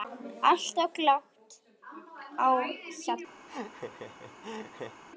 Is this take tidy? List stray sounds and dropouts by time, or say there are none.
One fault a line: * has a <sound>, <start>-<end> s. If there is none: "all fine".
* has a laugh, 3.5-5.0 s